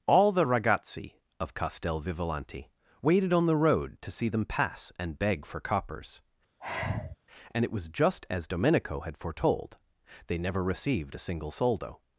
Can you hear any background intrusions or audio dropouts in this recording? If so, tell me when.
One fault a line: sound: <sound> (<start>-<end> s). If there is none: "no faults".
sound: sigh (6.6-7.2 s)